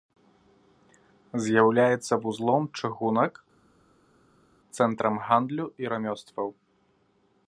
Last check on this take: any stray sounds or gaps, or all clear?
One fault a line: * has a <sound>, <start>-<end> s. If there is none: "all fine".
all fine